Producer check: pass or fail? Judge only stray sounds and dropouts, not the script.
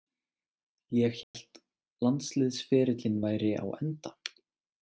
fail